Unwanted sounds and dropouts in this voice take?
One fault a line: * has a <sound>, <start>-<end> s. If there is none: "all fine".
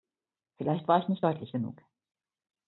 all fine